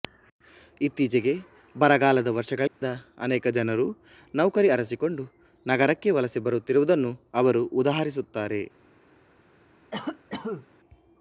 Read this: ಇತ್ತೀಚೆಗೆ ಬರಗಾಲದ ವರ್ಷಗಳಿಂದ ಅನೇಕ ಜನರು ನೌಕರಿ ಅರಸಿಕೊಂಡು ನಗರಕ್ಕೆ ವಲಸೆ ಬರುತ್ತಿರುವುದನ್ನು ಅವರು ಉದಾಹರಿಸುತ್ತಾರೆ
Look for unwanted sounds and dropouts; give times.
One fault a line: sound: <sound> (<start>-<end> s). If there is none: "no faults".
sound: dropout (2.7-2.8 s)
sound: cough (9.9-10.7 s)